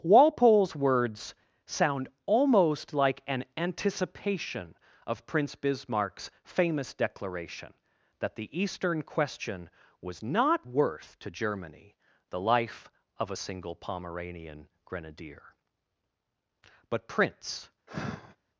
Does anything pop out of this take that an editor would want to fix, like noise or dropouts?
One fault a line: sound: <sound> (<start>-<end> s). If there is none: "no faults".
sound: sigh (17.9-18.4 s)